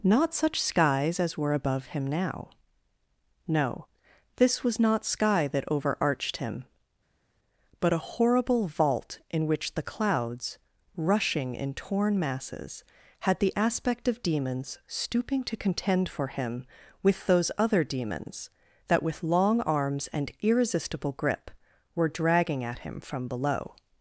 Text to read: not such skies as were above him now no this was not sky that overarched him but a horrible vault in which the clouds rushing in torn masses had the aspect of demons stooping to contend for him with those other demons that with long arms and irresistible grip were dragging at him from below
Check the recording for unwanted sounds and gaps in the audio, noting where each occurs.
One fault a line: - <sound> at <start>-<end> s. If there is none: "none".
none